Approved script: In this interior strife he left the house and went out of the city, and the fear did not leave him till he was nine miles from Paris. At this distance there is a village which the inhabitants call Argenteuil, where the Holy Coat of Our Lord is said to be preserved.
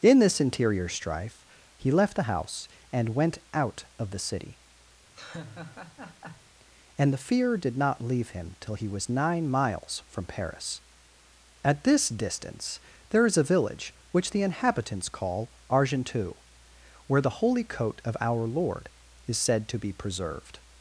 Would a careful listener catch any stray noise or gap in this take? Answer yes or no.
yes